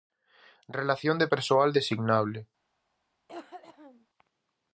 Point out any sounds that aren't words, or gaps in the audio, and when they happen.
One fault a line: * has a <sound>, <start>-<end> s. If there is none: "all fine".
* has a cough, 3.3-4.1 s